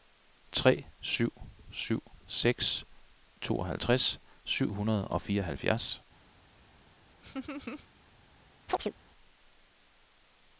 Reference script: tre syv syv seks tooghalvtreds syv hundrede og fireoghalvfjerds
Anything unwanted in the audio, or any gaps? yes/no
yes